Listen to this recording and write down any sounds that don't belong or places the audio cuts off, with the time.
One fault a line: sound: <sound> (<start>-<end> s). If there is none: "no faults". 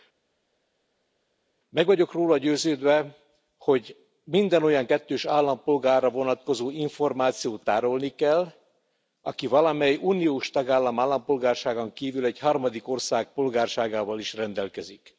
no faults